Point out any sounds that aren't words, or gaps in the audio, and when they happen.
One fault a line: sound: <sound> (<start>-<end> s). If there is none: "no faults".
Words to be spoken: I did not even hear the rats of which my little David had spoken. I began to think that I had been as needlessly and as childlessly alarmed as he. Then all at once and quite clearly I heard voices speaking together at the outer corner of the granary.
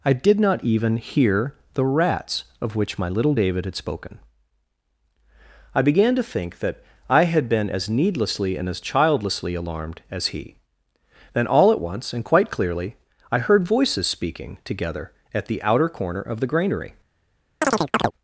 sound: chirp (17.6-18.1 s)